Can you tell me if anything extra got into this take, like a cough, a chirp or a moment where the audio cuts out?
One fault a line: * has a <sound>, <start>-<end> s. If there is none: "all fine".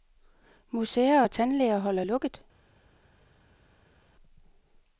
all fine